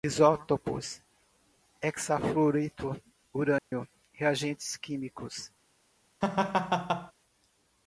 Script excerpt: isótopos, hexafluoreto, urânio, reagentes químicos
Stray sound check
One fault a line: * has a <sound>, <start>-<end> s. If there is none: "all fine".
* has a dropout, 3.6-3.7 s
* has a laugh, 6.2-7.1 s